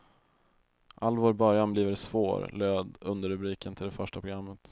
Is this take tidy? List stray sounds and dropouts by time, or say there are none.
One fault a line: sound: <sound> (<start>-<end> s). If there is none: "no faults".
no faults